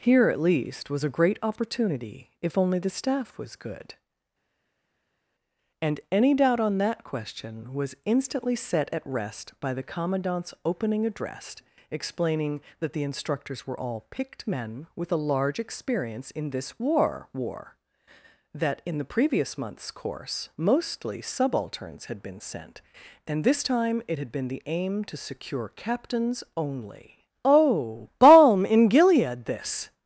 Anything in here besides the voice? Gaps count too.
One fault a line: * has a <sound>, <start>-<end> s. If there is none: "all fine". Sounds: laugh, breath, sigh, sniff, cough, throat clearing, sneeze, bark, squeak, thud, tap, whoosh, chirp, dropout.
all fine